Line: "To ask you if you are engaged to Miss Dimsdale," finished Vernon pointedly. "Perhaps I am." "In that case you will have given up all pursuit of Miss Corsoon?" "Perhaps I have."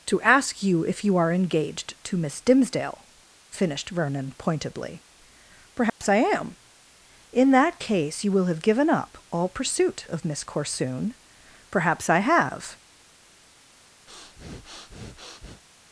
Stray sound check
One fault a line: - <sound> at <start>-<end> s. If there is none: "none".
- dropout at 5.9-6.0 s
- breath at 14.1-15.6 s